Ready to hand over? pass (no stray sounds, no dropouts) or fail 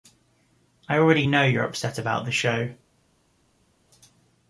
pass